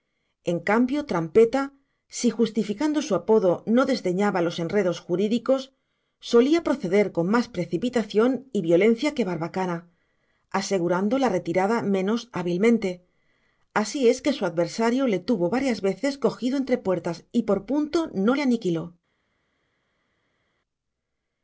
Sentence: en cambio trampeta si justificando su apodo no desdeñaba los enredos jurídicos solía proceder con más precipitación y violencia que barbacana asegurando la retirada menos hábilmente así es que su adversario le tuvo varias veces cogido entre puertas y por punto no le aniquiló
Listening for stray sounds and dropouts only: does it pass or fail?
pass